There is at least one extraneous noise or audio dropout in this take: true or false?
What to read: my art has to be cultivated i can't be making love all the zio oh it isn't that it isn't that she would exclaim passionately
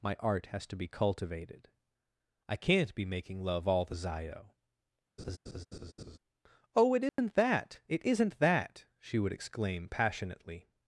true